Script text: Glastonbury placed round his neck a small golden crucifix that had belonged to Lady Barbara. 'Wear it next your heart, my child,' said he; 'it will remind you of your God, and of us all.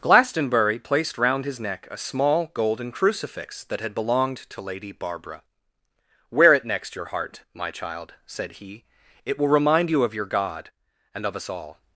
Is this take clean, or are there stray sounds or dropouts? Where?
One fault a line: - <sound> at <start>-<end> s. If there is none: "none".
none